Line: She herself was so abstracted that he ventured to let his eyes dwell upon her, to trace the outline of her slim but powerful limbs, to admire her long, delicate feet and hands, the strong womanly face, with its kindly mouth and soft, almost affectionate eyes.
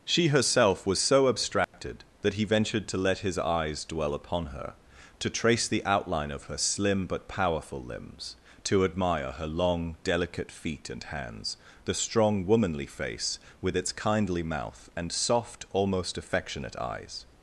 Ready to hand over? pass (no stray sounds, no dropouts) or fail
fail